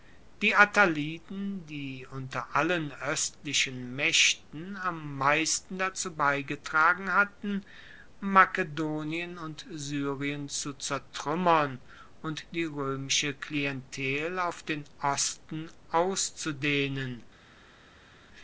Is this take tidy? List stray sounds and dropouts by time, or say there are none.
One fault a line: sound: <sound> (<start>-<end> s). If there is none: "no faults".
no faults